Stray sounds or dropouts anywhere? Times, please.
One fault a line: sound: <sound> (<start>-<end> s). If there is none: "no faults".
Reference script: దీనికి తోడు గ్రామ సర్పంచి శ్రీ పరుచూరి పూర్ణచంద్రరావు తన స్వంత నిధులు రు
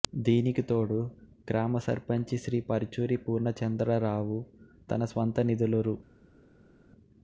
no faults